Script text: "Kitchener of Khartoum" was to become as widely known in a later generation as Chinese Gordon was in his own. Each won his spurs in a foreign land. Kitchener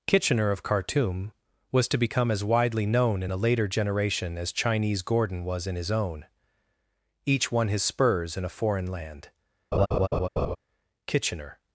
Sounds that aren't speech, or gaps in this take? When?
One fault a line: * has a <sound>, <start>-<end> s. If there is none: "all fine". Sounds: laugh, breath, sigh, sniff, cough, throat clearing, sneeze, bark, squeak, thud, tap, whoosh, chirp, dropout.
* has a laugh, 9.7-10.6 s